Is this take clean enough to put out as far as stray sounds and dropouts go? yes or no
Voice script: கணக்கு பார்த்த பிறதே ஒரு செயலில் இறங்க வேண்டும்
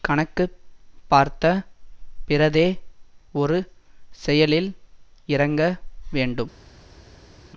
yes